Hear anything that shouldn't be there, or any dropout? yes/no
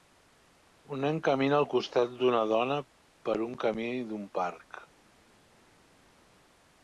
no